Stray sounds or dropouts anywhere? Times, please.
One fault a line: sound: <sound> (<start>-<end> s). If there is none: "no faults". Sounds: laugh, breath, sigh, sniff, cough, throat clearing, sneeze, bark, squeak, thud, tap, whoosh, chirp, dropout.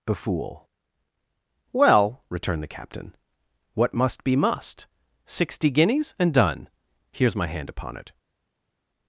no faults